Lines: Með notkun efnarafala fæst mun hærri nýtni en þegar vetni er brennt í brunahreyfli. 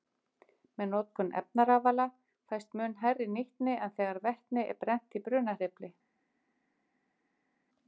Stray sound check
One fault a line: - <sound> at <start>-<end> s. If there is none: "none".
none